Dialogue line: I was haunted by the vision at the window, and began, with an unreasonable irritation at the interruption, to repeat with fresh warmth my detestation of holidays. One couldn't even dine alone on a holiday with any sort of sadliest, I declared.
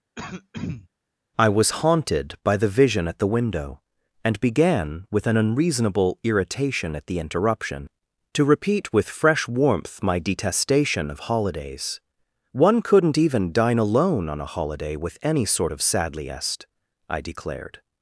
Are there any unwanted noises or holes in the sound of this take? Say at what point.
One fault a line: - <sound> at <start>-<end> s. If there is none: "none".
- throat clearing at 0.2-0.9 s